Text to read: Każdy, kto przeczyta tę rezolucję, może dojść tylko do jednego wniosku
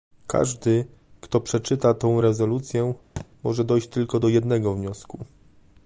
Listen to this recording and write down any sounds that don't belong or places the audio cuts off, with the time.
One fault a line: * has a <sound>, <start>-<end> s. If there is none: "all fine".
* has a thud, 3.2-3.3 s